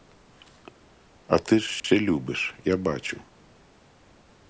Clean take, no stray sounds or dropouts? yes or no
no